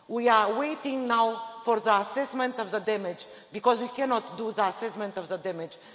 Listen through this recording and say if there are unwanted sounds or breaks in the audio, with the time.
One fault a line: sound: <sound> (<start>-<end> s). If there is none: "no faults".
no faults